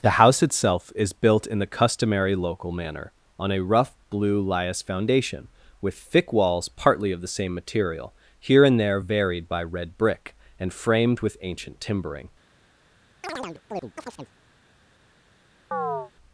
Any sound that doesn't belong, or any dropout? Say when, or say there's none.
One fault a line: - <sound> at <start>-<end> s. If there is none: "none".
- chirp at 13.2-14.3 s
- chirp at 15.7-16.1 s